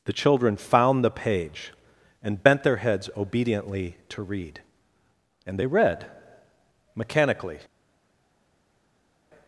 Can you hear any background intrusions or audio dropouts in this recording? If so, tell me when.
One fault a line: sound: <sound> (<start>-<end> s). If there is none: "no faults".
no faults